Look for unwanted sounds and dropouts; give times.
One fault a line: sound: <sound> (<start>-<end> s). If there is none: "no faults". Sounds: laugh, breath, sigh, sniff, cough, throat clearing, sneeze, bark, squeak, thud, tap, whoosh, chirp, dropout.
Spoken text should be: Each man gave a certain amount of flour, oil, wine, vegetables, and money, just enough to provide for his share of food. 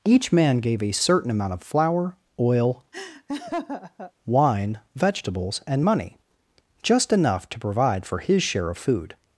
sound: laugh (2.9-4.1 s)